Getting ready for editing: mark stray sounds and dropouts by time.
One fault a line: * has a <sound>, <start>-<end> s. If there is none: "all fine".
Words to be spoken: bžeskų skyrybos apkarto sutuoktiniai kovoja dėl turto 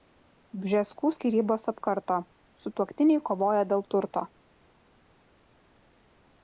all fine